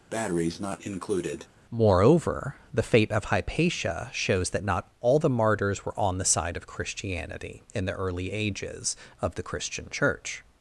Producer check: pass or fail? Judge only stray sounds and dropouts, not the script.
fail